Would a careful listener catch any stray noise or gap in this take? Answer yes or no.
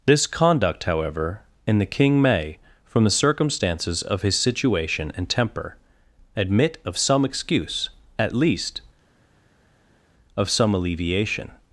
no